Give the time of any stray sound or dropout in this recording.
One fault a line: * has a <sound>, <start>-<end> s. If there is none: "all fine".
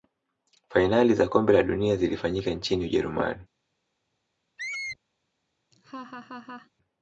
* has a squeak, 4.6-5.0 s
* has a laugh, 5.7-6.7 s